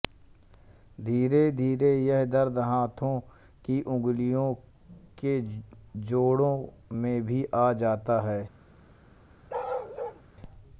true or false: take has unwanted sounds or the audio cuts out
true